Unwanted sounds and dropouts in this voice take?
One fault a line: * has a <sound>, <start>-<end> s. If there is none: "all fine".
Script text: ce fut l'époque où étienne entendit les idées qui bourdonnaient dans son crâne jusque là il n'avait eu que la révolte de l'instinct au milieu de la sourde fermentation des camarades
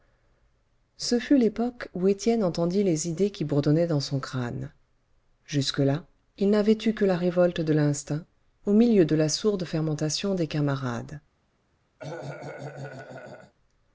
* has a cough, 12.0-13.5 s